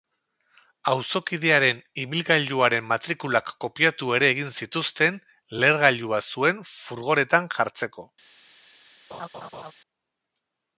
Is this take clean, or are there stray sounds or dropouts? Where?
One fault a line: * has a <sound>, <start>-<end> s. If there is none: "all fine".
* has a laugh, 9.1-9.7 s